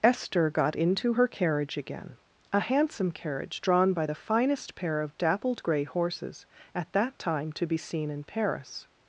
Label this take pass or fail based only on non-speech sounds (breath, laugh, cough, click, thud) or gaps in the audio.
pass